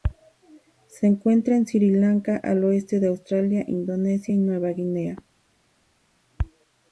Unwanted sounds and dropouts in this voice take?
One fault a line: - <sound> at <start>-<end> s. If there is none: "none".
none